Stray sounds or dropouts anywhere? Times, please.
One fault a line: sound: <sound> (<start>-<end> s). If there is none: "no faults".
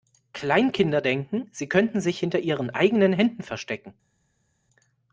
no faults